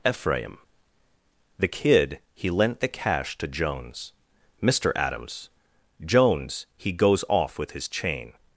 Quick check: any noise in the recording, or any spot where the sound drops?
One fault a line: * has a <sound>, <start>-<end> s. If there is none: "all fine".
all fine